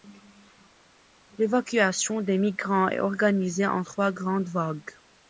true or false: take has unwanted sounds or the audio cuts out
false